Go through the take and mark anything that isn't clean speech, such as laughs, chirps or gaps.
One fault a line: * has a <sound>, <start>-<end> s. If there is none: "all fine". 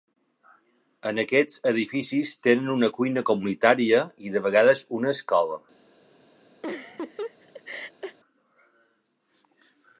* has a laugh, 6.6-8.2 s